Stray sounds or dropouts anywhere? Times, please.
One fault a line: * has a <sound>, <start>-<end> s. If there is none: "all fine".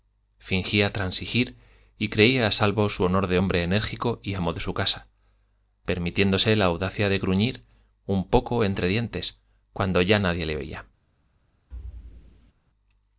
* has a thud, 11.7-12.5 s